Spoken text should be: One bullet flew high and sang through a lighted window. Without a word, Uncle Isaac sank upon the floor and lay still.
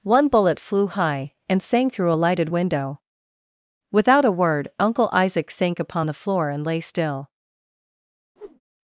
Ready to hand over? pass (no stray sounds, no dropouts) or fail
fail